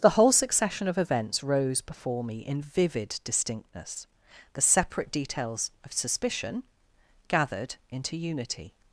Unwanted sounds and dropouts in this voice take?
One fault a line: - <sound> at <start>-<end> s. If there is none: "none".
none